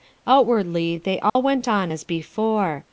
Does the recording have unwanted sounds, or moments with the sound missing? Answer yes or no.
yes